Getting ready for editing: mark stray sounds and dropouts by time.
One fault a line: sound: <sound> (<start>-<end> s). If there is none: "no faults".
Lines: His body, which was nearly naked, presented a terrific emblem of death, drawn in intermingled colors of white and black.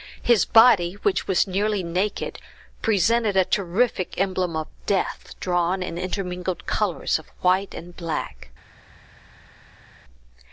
no faults